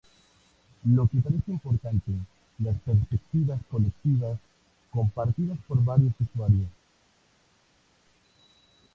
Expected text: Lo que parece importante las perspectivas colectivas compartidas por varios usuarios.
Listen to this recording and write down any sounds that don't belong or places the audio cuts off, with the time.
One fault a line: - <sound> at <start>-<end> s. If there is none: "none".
none